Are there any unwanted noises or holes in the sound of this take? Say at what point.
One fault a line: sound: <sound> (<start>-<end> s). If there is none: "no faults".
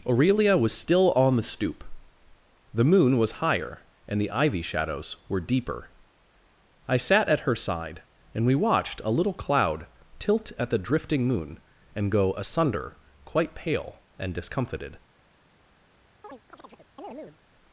sound: chirp (16.2-17.4 s)